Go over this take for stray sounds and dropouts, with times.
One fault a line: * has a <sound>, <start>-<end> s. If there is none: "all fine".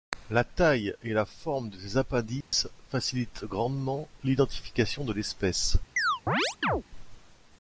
* has a dropout, 2.4-2.5 s
* has a chirp, 6.0-6.8 s